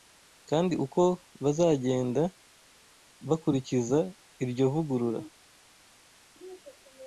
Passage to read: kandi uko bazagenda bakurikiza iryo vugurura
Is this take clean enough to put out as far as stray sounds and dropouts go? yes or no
yes